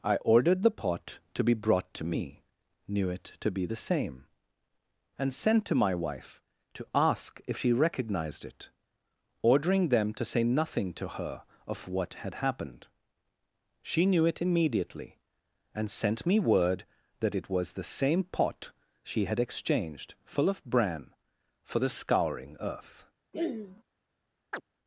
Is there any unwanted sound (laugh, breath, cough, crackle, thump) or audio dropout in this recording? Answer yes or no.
yes